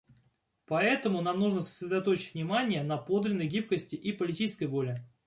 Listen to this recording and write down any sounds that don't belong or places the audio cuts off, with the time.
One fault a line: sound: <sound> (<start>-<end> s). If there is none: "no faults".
no faults